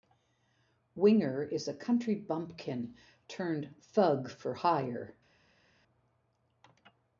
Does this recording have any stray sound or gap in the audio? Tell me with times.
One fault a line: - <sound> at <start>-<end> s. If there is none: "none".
none